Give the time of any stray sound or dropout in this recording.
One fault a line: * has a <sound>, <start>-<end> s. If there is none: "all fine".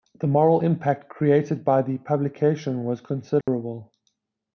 * has a dropout, 3.4-3.5 s